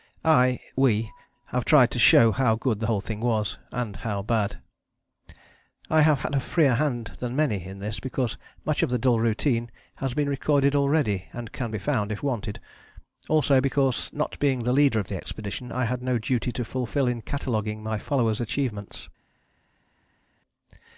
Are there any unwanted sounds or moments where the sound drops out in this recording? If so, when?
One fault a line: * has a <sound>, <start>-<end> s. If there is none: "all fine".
all fine